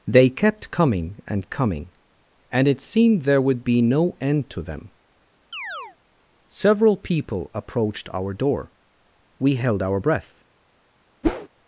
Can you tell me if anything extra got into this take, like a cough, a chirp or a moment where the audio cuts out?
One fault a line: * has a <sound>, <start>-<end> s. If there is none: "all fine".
* has a chirp, 5.5-6.0 s
* has a whoosh, 11.2-11.5 s